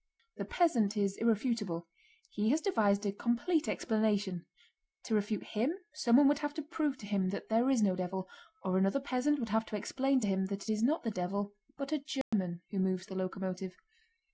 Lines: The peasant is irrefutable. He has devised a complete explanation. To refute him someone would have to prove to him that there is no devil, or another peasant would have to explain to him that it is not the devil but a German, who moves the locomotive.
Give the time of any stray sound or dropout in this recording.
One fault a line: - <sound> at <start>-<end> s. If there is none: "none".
- dropout at 12.2-12.3 s